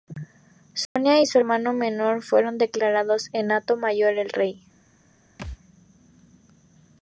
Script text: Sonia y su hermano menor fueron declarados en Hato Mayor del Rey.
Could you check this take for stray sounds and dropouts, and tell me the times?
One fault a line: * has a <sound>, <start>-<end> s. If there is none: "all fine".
* has a dropout, 0.9-1.0 s
* has a thud, 5.4-5.6 s